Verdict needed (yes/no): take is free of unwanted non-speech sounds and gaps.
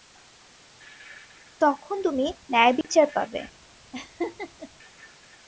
no